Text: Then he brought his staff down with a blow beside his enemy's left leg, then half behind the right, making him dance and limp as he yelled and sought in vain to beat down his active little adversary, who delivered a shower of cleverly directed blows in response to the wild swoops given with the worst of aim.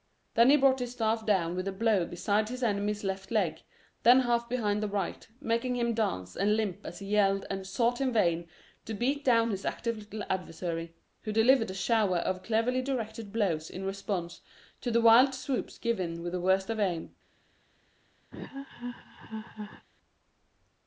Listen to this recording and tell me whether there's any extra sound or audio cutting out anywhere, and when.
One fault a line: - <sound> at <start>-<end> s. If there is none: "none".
- laugh at 18.3-19.9 s